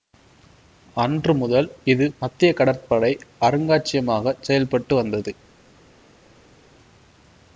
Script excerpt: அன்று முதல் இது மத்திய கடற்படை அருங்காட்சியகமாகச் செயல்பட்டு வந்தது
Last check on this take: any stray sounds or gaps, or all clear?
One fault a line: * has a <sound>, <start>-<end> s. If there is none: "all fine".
all fine